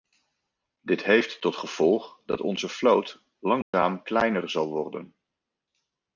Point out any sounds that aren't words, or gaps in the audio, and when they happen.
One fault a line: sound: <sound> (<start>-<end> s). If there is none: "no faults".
sound: dropout (3.6-3.7 s)